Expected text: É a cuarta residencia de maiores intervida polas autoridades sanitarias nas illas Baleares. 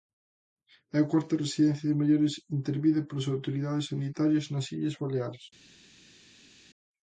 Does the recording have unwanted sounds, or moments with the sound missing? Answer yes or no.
no